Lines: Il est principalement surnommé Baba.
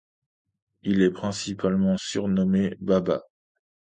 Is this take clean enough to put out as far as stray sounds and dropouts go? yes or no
yes